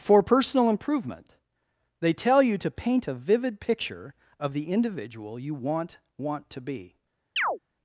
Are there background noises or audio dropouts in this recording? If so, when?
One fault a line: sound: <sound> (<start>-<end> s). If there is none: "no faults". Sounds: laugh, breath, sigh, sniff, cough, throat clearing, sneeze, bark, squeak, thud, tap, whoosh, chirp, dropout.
sound: chirp (7.4-7.6 s)